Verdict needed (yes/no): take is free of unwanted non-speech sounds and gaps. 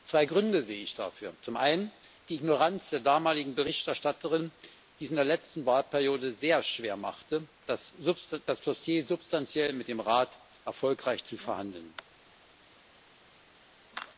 yes